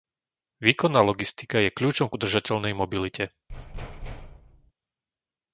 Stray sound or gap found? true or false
true